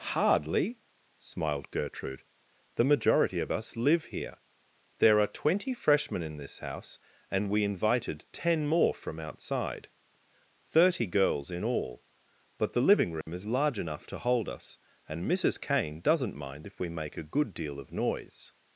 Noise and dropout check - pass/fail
fail